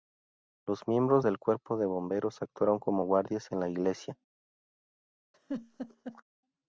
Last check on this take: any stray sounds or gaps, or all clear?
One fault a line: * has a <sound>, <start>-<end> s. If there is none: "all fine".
* has a laugh, 5.3-6.2 s